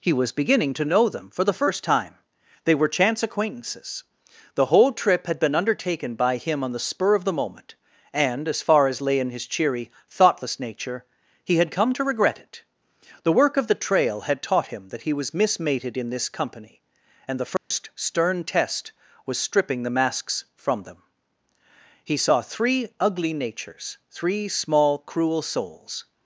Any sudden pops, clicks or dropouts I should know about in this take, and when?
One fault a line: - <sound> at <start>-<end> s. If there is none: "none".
- dropout at 17.6-17.7 s